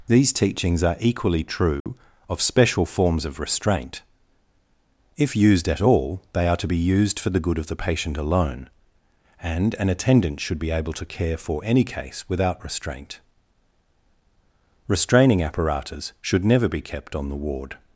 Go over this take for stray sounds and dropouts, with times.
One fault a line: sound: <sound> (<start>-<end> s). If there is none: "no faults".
sound: dropout (1.8-1.9 s)